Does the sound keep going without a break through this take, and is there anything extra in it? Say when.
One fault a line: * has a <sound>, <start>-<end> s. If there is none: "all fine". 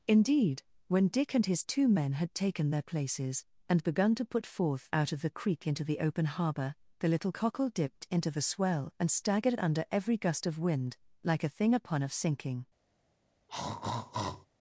* has a throat clearing, 13.5-14.5 s